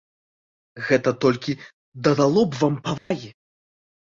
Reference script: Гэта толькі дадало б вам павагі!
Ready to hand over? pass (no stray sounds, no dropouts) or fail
fail